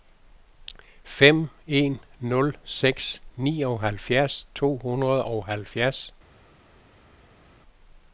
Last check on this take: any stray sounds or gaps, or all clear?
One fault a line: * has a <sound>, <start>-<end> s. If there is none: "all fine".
all fine